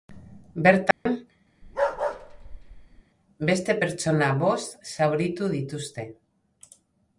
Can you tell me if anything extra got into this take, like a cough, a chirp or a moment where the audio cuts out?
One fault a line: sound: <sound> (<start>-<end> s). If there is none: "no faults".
sound: dropout (0.9-1.1 s)
sound: bark (1.6-3.0 s)